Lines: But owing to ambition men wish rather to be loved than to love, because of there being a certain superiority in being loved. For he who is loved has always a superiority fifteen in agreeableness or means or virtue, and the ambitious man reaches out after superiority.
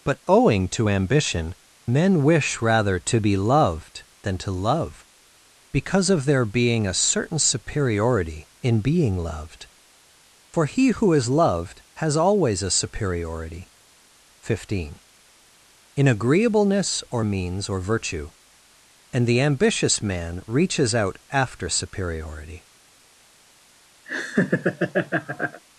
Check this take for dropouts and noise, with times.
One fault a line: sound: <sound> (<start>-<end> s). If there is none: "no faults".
sound: laugh (24.1-25.6 s)